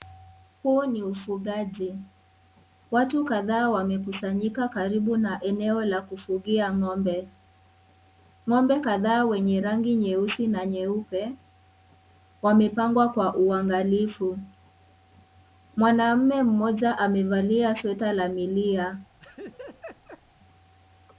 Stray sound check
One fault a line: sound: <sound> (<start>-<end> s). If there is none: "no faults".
sound: laugh (19.2-20.2 s)